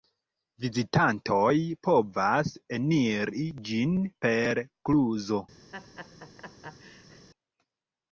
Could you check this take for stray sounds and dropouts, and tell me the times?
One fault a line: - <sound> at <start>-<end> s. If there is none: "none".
- laugh at 5.7-7.3 s